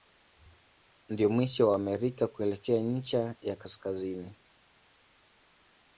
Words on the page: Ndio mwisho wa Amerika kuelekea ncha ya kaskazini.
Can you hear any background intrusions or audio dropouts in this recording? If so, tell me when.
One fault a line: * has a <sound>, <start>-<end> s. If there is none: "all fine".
all fine